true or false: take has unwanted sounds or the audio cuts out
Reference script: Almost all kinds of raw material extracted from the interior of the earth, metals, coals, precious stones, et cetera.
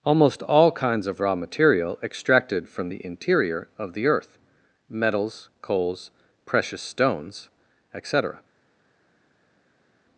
false